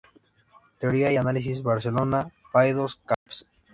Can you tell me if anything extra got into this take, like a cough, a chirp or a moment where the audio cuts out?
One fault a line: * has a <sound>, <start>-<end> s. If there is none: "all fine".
* has a dropout, 3.1-3.3 s